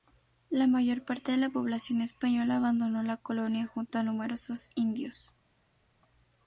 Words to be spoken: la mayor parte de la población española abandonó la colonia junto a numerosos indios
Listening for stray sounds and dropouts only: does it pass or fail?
pass